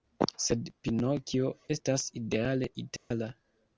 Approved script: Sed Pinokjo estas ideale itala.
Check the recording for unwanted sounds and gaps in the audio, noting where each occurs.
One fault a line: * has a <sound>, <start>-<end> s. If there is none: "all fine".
* has a dropout, 3.0-3.1 s